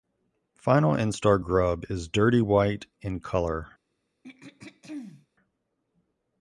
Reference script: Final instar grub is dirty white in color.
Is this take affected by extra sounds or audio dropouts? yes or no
yes